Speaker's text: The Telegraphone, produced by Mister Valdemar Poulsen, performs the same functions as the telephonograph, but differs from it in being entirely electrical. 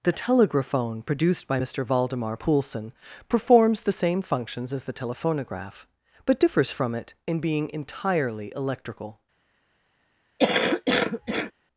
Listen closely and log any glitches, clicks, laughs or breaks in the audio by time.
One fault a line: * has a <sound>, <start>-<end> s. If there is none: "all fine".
* has a cough, 10.4-11.5 s